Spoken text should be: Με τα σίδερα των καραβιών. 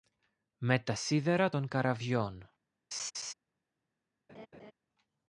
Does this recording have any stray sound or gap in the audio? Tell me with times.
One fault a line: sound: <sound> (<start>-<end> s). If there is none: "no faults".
sound: laugh (2.9-3.3 s)
sound: laugh (4.3-4.7 s)